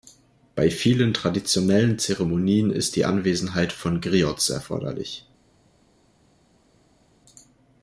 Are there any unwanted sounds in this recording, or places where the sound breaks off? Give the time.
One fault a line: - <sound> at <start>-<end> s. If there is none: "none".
none